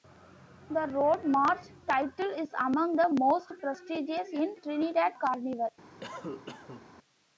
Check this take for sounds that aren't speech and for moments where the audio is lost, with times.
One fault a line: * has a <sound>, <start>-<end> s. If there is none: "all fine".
* has a cough, 6.0-6.9 s